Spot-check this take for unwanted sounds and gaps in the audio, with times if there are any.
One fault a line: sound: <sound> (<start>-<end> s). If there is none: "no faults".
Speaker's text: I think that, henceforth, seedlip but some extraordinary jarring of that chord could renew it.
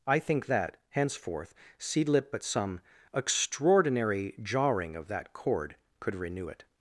no faults